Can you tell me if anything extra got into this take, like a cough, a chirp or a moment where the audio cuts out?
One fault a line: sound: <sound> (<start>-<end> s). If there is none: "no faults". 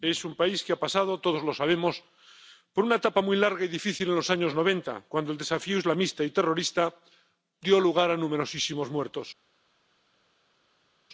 no faults